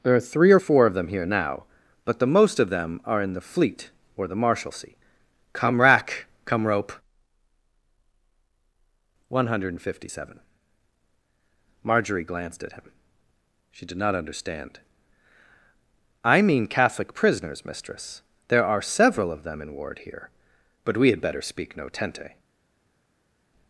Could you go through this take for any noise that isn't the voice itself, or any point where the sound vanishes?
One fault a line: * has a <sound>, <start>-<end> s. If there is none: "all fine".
all fine